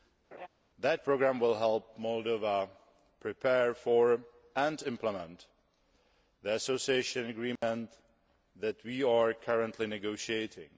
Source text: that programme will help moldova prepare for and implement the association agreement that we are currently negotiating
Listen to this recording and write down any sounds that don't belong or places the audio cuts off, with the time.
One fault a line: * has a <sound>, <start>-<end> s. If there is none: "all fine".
* has a laugh, 0.3-0.5 s
* has a dropout, 7.6-7.6 s